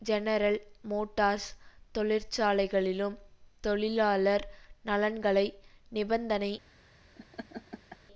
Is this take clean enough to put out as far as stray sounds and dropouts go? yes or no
no